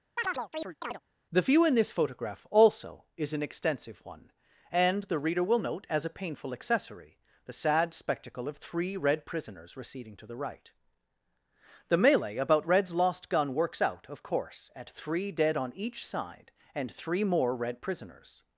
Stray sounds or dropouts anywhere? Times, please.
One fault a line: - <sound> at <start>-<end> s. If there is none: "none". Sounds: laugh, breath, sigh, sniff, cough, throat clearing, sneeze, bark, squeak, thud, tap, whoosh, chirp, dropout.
- chirp at 0.2-1.0 s